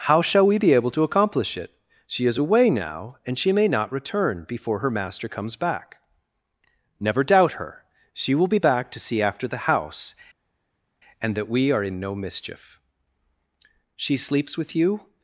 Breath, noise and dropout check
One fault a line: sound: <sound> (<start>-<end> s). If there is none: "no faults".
no faults